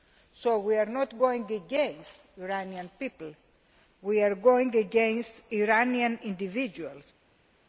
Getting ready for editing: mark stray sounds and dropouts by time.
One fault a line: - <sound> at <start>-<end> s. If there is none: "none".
none